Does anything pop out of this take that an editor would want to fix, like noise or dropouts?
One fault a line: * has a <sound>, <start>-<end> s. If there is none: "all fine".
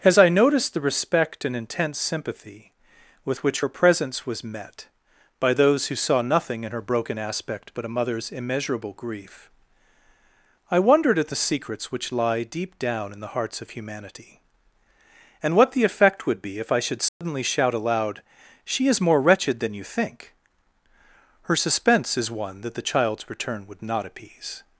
* has a dropout, 17.1-17.2 s